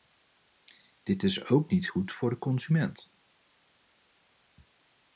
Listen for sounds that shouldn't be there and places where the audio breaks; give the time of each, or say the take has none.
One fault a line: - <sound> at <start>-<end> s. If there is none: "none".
none